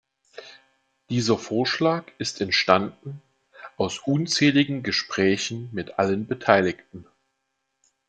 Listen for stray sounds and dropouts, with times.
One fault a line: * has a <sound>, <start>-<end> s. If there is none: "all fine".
all fine